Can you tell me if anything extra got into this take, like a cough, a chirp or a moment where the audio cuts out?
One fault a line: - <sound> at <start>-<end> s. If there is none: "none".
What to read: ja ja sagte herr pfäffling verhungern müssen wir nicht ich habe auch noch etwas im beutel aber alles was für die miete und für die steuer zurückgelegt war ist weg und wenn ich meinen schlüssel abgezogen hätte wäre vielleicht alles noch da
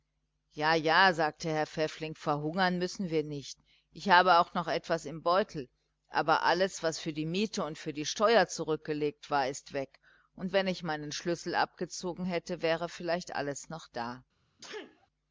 - sneeze at 14.6-15.1 s